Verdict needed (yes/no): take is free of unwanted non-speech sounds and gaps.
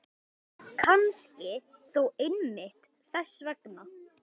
yes